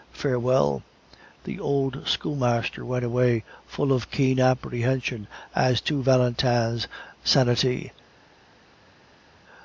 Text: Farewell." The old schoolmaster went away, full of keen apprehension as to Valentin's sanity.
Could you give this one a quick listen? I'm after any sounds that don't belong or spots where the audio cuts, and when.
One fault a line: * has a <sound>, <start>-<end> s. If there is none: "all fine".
all fine